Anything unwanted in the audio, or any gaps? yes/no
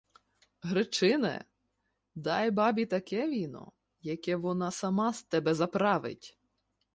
no